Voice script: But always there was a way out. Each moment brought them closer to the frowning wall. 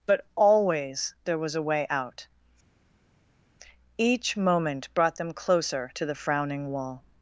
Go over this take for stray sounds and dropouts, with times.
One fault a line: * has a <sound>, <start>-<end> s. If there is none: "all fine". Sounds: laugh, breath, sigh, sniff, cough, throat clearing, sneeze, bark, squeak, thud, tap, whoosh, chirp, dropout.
all fine